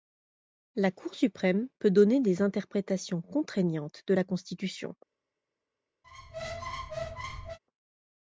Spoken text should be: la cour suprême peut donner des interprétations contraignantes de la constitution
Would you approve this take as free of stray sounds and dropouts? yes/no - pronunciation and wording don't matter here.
no